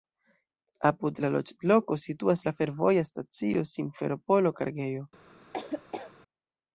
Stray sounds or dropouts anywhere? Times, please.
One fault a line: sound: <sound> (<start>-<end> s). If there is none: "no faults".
sound: laugh (5.5-6.1 s)